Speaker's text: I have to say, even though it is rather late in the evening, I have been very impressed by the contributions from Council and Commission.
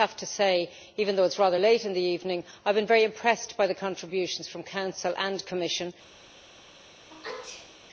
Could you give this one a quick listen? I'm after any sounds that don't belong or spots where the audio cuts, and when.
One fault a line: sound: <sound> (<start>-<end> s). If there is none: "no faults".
sound: sneeze (7.1-7.8 s)